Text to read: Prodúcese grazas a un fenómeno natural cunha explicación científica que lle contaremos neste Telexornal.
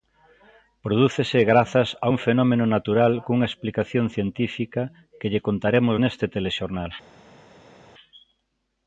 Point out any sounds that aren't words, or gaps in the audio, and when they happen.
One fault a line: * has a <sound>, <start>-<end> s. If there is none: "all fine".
all fine